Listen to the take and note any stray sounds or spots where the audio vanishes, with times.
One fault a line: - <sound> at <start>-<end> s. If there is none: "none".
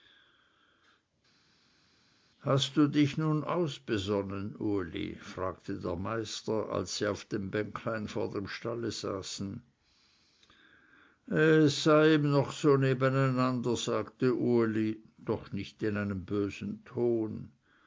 none